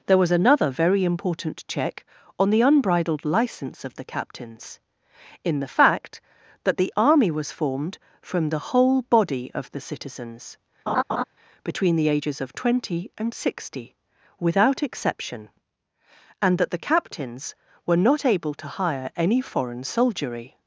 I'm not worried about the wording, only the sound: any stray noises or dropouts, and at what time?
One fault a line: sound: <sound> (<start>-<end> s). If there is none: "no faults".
sound: laugh (10.9-11.2 s)